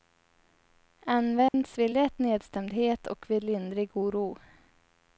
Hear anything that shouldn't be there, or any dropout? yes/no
yes